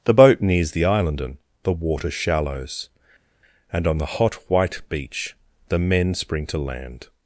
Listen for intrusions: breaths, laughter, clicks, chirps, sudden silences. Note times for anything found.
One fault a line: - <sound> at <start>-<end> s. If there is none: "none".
none